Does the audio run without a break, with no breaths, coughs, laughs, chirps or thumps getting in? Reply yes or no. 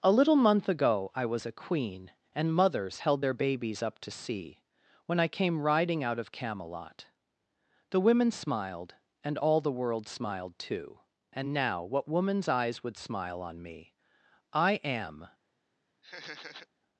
no